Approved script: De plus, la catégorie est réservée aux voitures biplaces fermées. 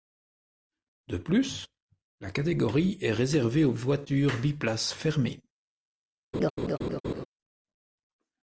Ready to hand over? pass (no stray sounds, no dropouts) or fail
fail